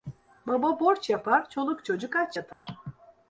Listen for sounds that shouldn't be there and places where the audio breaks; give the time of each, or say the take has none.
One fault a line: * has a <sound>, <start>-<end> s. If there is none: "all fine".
* has a dropout, 2.5-2.7 s